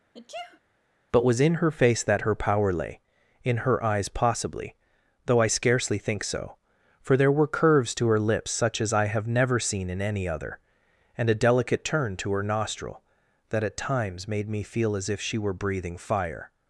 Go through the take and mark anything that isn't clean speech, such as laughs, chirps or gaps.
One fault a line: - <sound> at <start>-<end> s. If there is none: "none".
- sneeze at 0.1-0.6 s